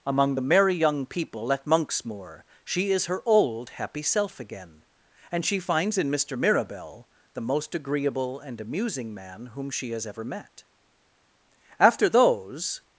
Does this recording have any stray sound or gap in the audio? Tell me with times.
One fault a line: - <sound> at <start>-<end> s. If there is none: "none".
none